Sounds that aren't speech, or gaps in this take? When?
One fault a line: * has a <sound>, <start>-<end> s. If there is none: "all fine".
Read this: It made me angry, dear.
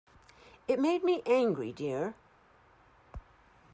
all fine